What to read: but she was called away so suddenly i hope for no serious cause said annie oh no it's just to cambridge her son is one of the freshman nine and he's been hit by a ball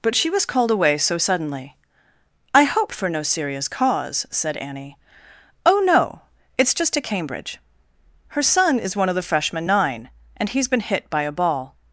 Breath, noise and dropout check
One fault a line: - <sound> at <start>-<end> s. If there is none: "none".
none